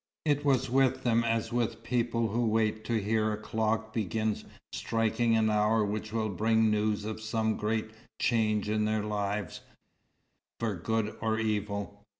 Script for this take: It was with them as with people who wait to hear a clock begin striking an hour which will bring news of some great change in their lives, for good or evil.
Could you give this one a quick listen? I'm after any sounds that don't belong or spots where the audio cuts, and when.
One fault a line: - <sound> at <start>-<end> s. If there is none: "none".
none